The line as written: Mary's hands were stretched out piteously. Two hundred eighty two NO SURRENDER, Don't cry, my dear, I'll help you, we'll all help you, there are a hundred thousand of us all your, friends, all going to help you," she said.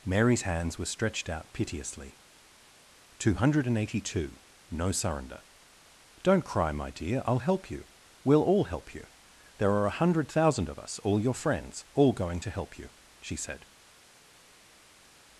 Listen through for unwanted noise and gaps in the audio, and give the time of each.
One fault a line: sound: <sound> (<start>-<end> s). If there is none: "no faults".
no faults